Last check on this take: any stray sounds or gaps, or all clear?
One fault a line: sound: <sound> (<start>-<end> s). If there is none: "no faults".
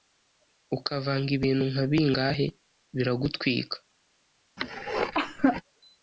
sound: cough (4.6-5.6 s)